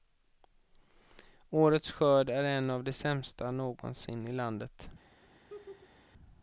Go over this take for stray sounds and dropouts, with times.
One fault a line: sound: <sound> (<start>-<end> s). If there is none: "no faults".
sound: laugh (5.2-6.1 s)